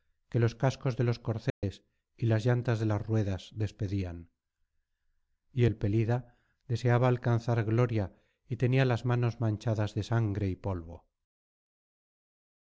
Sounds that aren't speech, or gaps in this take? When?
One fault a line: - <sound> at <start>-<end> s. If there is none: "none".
- dropout at 1.5-1.6 s